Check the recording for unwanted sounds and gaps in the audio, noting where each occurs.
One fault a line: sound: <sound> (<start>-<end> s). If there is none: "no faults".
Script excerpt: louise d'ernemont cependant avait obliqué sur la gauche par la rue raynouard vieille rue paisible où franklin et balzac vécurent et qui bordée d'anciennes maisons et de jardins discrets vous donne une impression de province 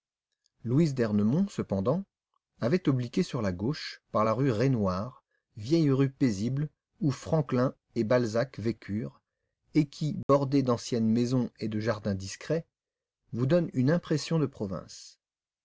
sound: dropout (10.2-10.3 s)